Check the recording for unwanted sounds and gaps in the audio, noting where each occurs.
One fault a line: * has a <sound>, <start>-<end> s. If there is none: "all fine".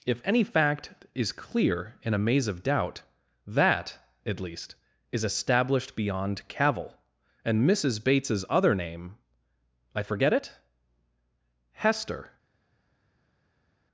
all fine